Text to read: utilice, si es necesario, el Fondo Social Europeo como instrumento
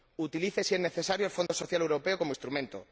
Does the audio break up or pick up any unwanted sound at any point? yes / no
yes